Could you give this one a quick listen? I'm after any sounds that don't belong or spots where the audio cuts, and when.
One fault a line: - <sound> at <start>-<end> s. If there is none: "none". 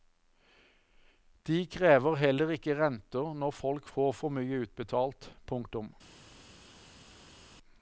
none